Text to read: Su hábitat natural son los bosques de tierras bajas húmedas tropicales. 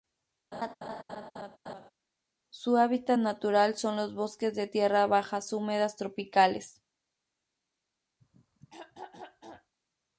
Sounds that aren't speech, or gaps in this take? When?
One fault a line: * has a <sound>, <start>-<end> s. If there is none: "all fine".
* has a laugh, 0.5-1.9 s
* has a throat clearing, 8.2-9.7 s